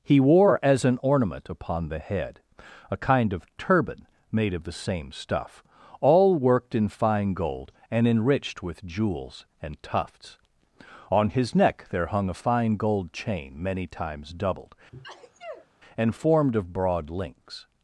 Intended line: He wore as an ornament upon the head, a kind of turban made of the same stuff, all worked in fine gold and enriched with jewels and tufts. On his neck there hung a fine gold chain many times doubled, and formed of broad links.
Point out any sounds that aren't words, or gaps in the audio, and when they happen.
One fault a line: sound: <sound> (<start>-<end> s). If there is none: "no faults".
sound: sneeze (14.9-15.7 s)